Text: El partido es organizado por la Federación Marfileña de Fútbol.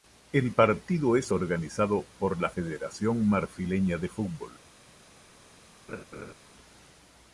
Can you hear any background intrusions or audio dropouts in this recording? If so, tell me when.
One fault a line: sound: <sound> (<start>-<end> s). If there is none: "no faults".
sound: laugh (5.9-6.3 s)